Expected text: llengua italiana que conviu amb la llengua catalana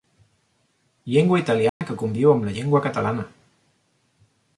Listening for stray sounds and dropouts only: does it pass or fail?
fail